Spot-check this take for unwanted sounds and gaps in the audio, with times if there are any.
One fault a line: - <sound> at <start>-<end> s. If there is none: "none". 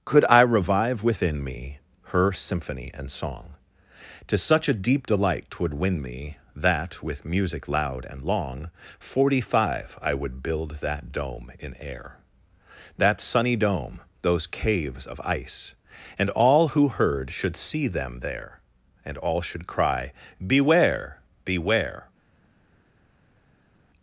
none